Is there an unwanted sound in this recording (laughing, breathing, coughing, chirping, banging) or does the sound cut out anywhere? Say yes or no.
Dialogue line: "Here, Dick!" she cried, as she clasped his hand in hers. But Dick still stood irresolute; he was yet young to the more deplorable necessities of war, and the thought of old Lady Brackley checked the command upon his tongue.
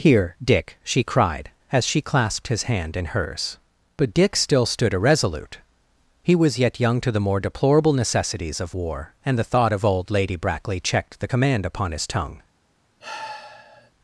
yes